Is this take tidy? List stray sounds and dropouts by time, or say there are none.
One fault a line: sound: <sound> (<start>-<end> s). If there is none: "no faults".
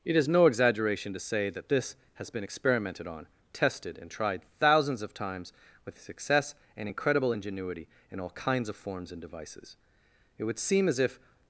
no faults